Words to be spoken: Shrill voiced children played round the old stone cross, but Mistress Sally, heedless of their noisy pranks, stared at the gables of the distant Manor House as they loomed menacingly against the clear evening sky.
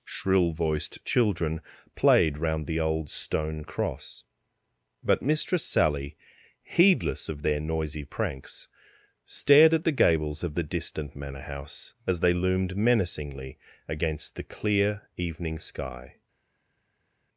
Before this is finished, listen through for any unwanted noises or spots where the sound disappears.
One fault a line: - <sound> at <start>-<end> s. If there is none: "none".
none